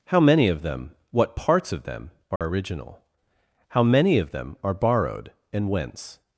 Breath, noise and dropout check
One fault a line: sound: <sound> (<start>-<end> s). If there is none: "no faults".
sound: dropout (2.4-2.4 s)